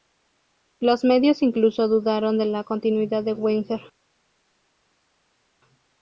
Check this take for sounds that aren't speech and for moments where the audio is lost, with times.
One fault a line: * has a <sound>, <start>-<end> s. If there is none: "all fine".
all fine